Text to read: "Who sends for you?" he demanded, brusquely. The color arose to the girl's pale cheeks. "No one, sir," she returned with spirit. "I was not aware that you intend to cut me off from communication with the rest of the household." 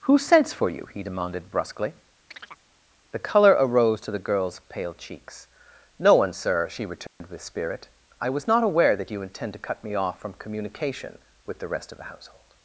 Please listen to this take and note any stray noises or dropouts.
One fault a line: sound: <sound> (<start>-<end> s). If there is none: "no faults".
sound: chirp (2.3-2.6 s)
sound: dropout (7.1-7.2 s)